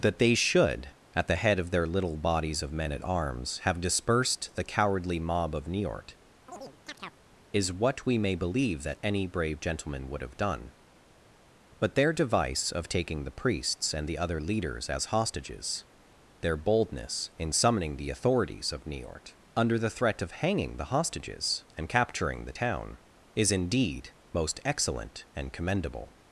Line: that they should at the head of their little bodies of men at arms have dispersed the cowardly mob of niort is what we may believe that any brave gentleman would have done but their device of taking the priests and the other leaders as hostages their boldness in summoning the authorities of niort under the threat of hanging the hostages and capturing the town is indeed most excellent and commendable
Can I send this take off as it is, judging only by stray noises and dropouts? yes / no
no